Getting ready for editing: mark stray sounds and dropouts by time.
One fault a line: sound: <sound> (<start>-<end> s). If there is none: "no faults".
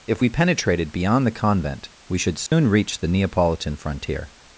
sound: dropout (2.5-2.5 s)